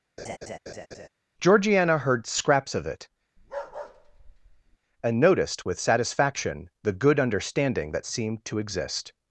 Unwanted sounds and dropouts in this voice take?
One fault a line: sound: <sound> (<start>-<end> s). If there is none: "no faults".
sound: laugh (0.2-1.1 s)
sound: bark (3.4-4.8 s)